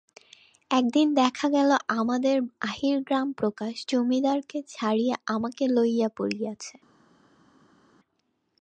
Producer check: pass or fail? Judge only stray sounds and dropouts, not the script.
pass